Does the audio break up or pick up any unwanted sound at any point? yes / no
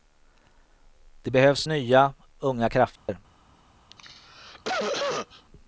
yes